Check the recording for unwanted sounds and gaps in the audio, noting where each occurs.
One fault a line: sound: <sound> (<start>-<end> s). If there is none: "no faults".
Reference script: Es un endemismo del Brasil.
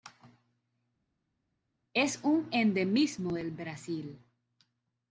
no faults